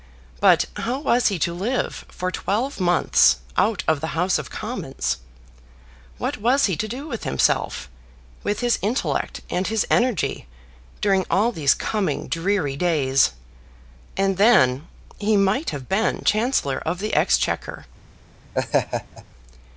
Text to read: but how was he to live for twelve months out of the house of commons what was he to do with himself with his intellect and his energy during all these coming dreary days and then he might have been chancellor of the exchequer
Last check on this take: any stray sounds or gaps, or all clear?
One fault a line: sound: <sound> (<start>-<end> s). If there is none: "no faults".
sound: laugh (18.5-19.2 s)